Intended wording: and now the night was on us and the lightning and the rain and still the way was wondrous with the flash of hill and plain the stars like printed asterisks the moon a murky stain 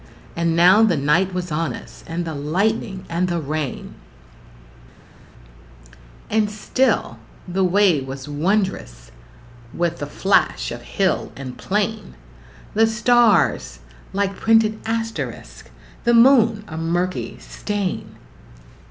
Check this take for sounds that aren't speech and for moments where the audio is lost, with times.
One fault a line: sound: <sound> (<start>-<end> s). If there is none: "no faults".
no faults